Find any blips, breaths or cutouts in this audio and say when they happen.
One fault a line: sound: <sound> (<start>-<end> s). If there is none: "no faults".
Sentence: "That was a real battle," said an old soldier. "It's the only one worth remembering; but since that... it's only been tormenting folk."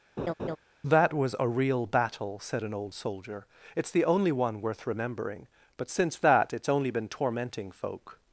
sound: laugh (0.2-0.6 s)